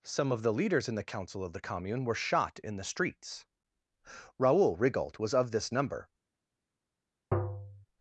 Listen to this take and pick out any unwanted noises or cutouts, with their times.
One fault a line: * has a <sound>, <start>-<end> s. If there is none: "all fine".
* has a tap, 7.3-7.9 s